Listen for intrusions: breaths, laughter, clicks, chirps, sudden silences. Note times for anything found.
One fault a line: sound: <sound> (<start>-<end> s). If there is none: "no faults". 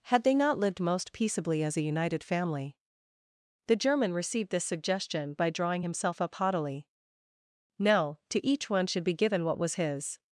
no faults